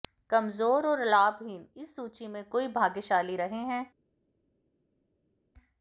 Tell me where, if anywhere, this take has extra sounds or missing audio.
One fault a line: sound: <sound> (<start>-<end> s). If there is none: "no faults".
no faults